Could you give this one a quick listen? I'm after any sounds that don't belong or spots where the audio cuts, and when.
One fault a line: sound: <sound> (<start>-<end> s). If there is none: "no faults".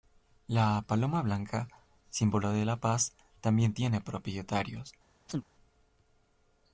sound: chirp (5.3-5.5 s)